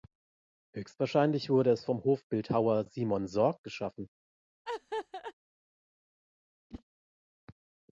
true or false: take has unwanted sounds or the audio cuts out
true